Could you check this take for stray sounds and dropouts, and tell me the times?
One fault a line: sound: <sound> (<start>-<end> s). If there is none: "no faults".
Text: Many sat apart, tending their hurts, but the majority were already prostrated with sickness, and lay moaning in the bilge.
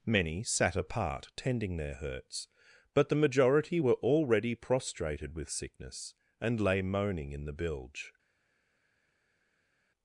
no faults